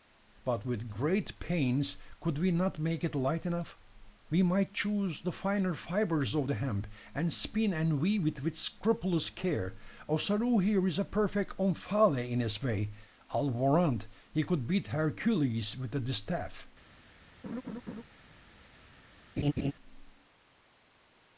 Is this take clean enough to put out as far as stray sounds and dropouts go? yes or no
no